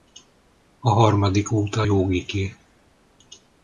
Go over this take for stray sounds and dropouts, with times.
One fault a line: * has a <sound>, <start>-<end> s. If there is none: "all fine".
all fine